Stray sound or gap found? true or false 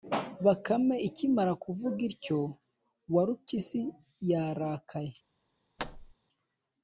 true